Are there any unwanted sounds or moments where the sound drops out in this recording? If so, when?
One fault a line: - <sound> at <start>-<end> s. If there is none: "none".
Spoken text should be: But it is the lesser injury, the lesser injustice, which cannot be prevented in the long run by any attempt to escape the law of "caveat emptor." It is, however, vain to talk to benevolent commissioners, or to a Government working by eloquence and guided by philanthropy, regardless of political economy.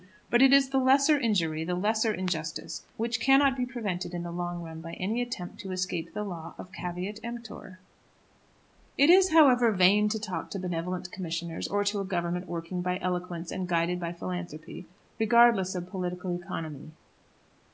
none